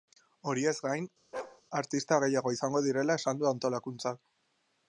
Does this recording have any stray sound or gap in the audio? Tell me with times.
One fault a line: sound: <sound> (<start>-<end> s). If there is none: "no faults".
sound: bark (1.3-1.6 s)